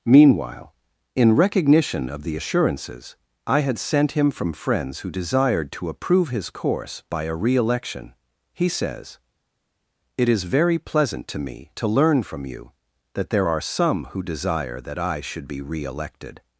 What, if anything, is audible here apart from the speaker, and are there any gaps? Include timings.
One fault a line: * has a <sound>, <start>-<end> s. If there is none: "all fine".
all fine